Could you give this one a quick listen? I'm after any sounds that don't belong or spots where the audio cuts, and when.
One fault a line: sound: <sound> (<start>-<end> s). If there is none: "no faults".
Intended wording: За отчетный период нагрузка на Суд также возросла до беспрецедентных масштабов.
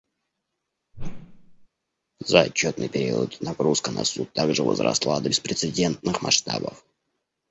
sound: whoosh (0.9-1.7 s)